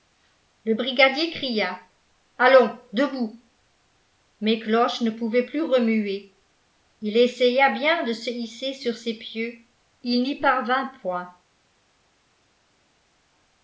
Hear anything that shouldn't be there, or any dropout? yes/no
no